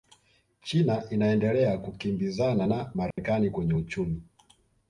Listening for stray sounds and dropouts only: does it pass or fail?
fail